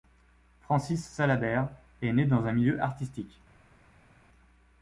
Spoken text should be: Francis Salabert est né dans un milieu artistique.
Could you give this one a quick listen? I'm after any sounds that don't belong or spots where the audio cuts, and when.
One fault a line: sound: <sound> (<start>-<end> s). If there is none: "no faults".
no faults